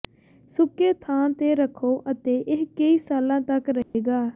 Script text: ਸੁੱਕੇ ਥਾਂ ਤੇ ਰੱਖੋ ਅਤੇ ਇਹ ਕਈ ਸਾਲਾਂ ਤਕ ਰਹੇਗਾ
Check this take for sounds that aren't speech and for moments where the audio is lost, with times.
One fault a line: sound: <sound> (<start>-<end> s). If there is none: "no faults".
sound: dropout (3.8-3.9 s)